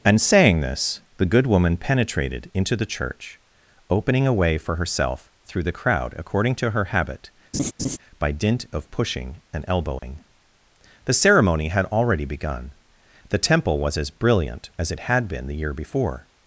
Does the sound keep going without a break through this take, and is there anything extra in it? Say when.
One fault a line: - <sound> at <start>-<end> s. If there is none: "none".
- laugh at 7.5-8.0 s
- dropout at 10.0-10.0 s